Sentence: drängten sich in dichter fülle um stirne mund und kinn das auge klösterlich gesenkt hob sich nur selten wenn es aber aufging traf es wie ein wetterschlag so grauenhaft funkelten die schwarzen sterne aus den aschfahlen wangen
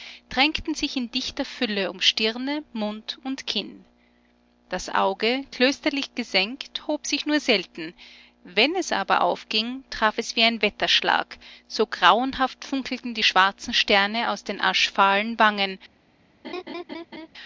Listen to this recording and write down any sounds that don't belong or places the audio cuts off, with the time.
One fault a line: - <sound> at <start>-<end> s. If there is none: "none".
- laugh at 16.4-17.3 s